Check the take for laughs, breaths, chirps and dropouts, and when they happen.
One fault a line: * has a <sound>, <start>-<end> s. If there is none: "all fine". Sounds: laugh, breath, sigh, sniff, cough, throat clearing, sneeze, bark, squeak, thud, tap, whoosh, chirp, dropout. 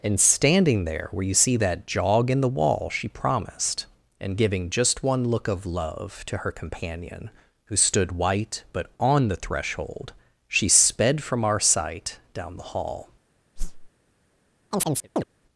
* has a whoosh, 13.6-13.9 s
* has a chirp, 14.7-15.2 s